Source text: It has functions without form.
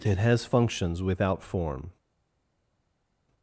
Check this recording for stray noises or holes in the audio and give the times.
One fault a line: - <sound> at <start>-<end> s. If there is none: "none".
none